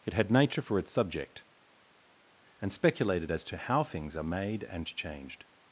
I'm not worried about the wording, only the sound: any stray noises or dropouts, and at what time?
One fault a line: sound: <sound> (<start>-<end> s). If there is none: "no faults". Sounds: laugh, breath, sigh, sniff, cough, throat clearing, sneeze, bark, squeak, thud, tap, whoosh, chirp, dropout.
no faults